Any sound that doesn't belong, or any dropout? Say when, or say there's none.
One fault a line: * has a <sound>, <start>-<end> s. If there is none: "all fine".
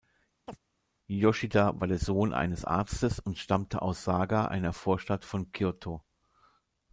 * has a chirp, 0.5-0.6 s